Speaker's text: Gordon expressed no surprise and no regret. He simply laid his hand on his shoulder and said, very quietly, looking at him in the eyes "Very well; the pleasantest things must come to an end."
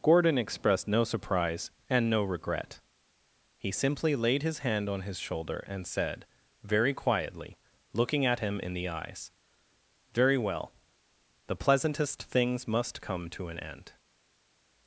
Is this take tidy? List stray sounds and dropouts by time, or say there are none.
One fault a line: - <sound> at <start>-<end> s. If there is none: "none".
none